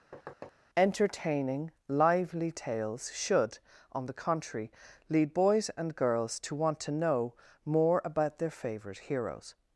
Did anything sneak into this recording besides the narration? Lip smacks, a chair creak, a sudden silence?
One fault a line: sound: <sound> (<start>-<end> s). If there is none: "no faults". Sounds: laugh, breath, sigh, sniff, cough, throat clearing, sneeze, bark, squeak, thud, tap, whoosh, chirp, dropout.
sound: thud (0.1-0.5 s)